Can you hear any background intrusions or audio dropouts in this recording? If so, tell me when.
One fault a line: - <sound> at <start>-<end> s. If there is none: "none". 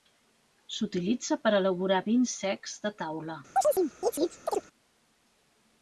- chirp at 3.6-4.7 s